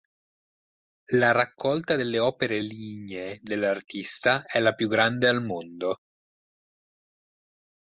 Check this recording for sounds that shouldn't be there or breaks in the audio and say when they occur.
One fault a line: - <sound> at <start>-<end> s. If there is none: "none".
none